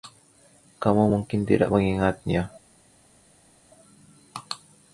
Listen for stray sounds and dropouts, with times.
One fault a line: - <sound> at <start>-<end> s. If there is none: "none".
none